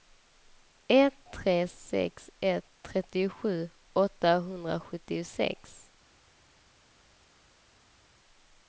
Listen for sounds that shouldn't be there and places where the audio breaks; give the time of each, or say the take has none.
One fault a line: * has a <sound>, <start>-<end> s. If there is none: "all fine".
all fine